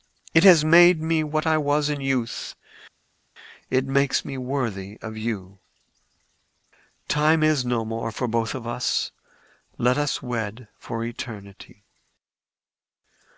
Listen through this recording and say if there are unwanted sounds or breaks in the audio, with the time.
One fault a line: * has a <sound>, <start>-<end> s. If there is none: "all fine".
all fine